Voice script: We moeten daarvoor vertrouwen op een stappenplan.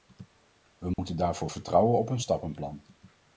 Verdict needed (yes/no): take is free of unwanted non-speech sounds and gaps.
no